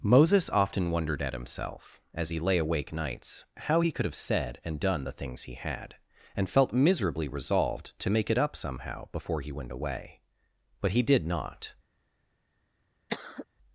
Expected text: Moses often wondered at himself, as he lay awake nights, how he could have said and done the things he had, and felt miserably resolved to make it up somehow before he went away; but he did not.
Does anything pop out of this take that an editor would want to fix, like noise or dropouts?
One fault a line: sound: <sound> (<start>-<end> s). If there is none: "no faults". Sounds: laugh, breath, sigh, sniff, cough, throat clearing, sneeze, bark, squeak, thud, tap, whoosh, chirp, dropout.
sound: cough (13.1-13.4 s)